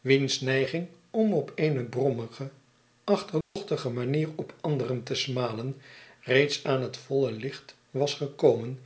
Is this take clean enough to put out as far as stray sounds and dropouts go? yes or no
no